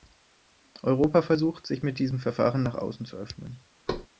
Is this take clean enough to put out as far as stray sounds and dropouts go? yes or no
no